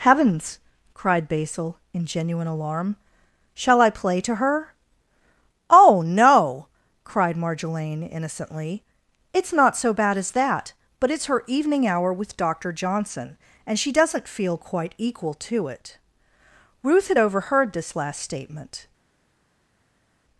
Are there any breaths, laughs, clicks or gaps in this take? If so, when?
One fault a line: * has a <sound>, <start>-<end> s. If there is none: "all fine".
all fine